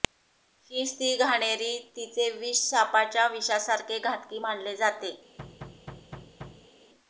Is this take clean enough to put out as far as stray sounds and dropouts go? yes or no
no